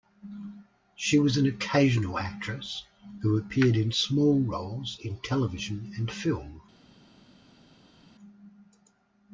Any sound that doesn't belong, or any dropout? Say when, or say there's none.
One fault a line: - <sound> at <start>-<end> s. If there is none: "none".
none